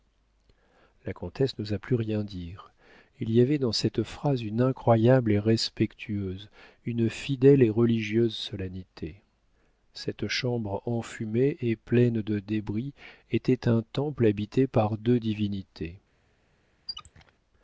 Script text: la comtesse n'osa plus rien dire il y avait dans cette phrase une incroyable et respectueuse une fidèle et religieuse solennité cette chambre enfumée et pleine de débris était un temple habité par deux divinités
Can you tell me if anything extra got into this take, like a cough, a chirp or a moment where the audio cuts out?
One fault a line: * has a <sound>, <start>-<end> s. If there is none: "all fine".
* has a squeak, 16.9-17.3 s